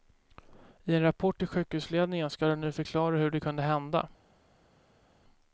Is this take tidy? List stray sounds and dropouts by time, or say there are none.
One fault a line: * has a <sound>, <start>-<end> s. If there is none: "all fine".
all fine